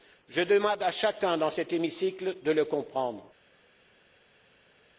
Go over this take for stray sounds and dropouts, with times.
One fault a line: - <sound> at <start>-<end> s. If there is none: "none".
none